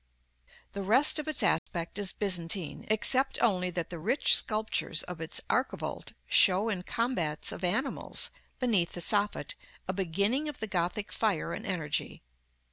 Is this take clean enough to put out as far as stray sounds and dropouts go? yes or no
no